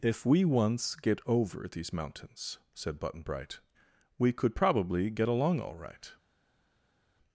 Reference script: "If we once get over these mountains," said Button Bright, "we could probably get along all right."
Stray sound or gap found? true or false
false